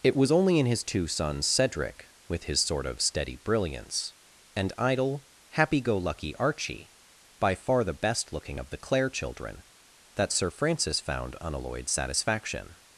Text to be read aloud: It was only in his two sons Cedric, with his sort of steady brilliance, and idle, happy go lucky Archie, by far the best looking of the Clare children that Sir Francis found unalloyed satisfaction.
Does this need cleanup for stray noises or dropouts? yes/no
no